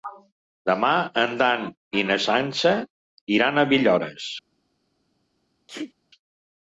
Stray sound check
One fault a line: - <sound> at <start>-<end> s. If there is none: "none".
- sneeze at 5.7-5.9 s